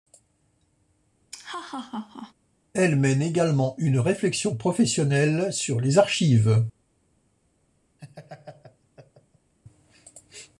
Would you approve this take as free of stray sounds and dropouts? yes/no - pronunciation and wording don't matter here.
no